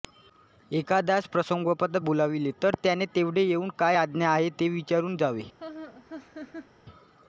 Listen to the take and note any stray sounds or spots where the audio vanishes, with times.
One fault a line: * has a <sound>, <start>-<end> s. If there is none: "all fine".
* has a laugh, 5.6-6.7 s